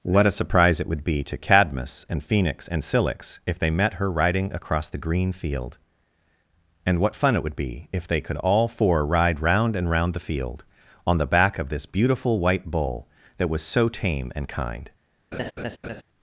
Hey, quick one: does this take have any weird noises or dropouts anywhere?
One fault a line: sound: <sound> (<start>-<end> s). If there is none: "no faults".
sound: laugh (15.3-16.0 s)